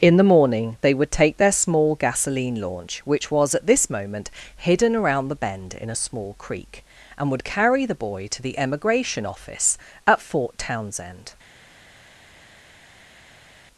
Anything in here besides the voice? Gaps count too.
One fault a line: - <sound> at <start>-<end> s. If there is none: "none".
none